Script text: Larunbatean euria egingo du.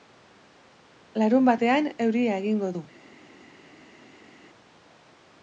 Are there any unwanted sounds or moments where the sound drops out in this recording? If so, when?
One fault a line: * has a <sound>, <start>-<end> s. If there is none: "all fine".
all fine